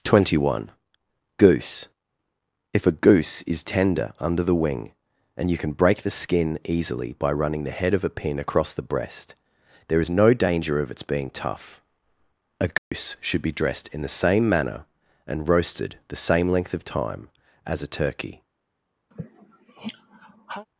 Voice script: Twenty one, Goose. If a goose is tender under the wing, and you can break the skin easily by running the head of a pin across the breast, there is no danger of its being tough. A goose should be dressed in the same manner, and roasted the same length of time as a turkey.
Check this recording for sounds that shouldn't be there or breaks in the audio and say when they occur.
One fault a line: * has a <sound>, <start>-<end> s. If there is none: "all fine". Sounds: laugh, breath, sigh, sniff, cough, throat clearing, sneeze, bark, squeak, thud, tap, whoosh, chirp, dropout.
* has a dropout, 12.8-12.9 s
* has a sigh, 19.1-20.7 s